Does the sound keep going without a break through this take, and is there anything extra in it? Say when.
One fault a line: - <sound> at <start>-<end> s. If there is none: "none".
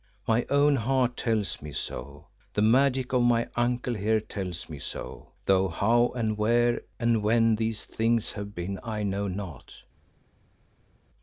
none